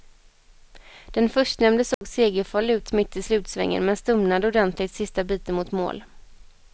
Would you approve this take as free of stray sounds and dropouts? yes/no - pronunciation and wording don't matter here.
no